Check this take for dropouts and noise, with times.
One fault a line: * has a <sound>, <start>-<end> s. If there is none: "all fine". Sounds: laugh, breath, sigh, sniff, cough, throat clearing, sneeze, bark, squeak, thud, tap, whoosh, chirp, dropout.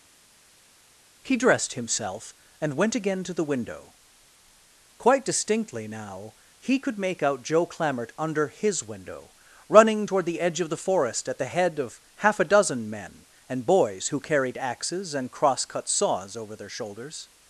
all fine